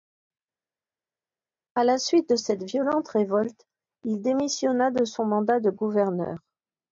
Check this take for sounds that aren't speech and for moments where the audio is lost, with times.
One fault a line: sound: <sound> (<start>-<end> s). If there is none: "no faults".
no faults